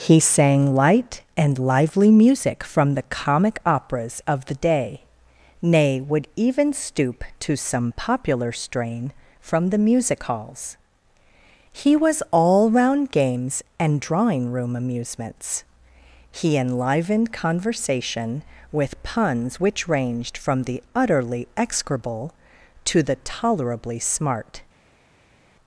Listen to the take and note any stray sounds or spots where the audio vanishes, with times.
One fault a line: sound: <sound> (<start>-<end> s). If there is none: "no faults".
no faults